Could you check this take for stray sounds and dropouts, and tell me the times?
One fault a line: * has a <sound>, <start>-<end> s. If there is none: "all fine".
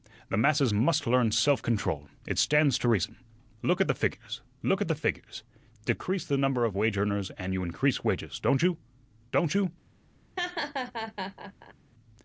* has a laugh, 10.4-11.7 s